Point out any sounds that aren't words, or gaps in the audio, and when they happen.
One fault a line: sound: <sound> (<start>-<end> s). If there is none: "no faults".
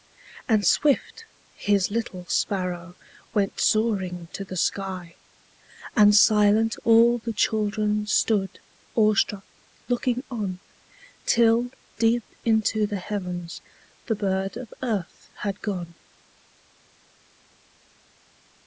no faults